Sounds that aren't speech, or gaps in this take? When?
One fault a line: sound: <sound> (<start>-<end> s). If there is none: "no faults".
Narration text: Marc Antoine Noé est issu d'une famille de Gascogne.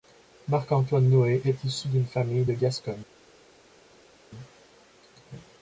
no faults